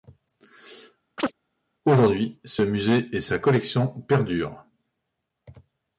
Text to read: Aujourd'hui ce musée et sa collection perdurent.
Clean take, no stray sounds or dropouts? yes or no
no